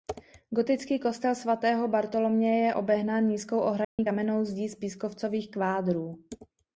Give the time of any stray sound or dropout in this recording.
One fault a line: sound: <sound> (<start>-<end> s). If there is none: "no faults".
sound: dropout (3.8-4.0 s)